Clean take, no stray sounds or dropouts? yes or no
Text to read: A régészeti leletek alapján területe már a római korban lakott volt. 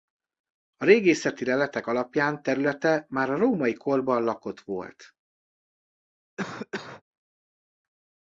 no